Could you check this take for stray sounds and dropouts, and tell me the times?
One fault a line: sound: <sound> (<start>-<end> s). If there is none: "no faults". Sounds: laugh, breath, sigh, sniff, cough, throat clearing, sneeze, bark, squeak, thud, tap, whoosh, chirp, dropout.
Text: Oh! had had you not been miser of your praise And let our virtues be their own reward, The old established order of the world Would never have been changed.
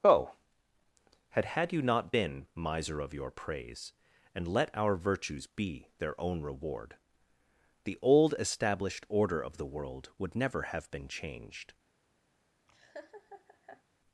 sound: laugh (12.7-13.8 s)